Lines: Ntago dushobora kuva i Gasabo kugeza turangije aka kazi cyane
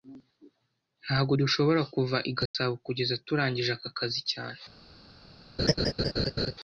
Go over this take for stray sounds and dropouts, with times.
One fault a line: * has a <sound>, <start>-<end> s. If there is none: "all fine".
* has a dropout, 2.5-2.5 s
* has a laugh, 5.6-6.5 s